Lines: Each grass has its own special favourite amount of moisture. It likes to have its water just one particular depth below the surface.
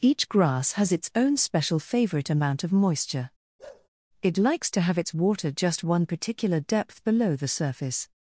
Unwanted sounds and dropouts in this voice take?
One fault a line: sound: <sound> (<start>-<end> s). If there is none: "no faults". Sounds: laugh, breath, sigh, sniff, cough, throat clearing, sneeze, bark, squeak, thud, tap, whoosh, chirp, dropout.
sound: bark (3.6-3.9 s)